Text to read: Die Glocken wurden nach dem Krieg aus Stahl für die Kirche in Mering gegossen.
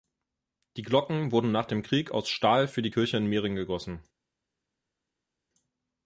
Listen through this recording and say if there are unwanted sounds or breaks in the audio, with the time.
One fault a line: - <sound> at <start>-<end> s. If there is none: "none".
none